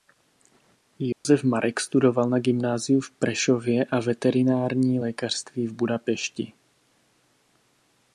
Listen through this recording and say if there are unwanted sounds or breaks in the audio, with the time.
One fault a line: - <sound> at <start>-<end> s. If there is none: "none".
- dropout at 1.1-1.3 s